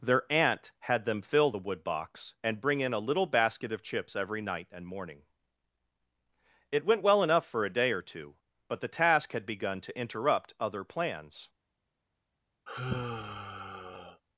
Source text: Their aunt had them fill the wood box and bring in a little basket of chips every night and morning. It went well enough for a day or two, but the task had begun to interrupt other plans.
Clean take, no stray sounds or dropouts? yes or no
no